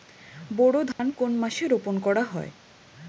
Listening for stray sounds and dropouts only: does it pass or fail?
fail